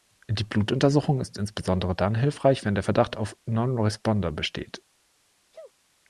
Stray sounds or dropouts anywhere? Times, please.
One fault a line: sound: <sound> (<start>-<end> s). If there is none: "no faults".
sound: sneeze (5.5-5.7 s)